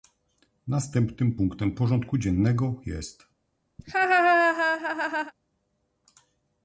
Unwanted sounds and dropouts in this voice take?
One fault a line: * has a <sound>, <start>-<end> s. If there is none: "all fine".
* has a laugh, 3.8-5.3 s